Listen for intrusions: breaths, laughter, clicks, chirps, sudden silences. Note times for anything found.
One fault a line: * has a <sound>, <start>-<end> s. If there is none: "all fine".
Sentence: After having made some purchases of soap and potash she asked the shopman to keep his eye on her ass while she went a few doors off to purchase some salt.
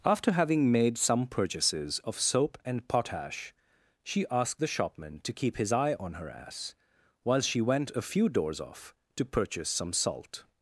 all fine